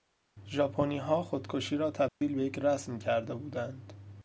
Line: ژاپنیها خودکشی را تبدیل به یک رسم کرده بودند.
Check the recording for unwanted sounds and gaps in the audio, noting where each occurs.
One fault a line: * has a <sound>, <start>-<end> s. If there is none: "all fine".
* has a dropout, 2.1-2.2 s